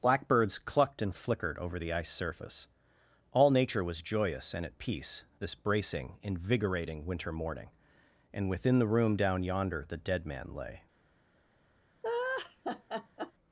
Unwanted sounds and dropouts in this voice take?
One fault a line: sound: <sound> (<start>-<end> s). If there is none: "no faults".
sound: laugh (12.0-13.3 s)